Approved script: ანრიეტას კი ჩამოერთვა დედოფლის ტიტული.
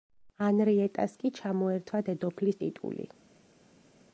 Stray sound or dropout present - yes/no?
no